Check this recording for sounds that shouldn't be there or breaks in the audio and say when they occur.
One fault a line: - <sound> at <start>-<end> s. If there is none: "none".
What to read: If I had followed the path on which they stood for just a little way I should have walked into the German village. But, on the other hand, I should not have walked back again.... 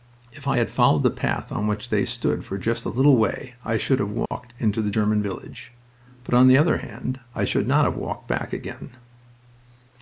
- dropout at 4.3-4.3 s